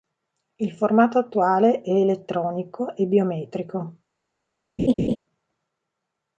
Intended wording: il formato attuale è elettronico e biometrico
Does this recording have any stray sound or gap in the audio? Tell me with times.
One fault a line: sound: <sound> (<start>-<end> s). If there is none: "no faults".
sound: laugh (4.8-5.2 s)